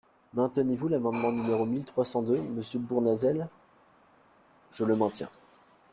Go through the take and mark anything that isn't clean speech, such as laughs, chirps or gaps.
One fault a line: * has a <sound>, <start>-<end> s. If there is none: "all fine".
all fine